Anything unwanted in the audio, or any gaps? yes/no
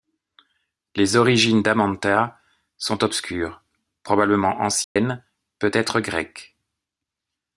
yes